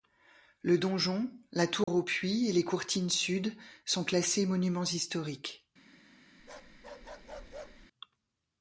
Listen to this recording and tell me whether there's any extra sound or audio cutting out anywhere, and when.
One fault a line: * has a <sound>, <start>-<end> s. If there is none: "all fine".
* has a dropout, 1.8-1.9 s
* has a bark, 6.4-7.9 s